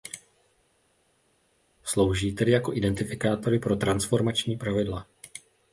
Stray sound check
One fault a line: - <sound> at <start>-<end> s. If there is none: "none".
none